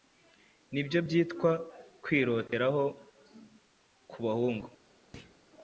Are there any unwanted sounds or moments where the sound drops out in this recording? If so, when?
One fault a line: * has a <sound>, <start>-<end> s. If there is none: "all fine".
* has a thud, 5.1-5.4 s